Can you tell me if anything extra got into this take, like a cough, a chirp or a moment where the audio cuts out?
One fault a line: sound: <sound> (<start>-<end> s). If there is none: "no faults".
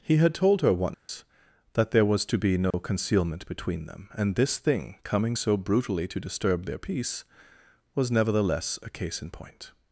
sound: dropout (0.9-1.1 s)
sound: dropout (2.7-2.7 s)